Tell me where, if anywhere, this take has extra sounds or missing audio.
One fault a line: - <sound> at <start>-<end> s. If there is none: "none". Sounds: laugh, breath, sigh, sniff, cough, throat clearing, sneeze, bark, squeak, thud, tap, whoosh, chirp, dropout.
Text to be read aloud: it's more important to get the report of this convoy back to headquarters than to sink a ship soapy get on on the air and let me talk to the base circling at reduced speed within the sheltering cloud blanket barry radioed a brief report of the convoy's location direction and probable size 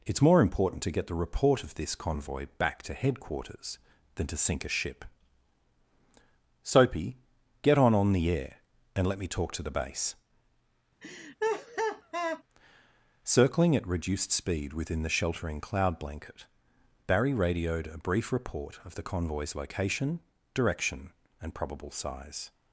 - laugh at 11.0-12.4 s